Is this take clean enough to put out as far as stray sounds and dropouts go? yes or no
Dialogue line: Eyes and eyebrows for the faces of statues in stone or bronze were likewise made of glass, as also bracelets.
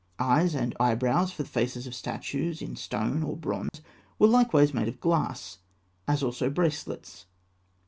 no